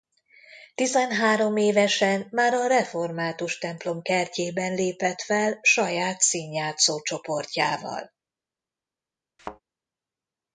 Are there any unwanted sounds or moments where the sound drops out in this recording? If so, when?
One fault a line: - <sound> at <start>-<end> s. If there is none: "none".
- thud at 9.4-9.6 s